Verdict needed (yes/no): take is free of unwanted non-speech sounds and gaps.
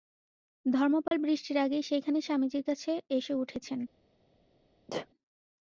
no